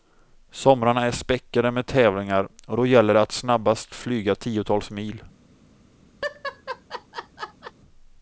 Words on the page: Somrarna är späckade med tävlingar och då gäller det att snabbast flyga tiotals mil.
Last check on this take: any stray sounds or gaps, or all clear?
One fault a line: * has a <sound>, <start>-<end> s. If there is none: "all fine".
* has a laugh, 6.2-7.7 s